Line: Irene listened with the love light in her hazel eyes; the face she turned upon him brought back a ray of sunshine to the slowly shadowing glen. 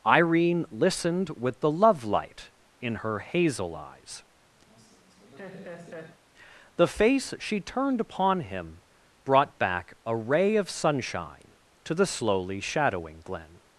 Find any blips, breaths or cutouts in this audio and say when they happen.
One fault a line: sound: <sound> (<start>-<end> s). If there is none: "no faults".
sound: laugh (4.7-6.2 s)